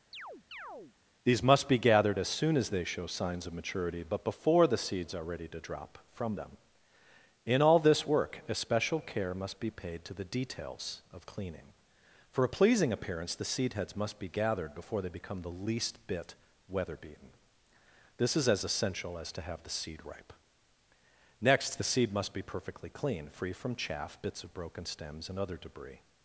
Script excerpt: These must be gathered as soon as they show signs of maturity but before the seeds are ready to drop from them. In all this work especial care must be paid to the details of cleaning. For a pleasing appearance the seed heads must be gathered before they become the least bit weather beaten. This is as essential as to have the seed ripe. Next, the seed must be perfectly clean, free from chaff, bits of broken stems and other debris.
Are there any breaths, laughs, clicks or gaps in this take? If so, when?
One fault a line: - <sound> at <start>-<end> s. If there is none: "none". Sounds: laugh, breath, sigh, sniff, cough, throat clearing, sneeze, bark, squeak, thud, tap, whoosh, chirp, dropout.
- chirp at 0.1-1.0 s